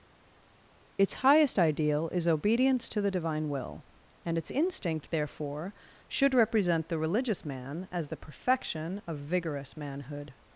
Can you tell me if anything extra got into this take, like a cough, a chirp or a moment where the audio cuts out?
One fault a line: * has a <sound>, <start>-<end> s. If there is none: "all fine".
all fine